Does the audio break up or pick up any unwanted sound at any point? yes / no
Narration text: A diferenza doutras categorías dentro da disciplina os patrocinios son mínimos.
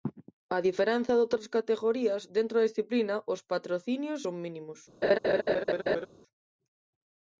yes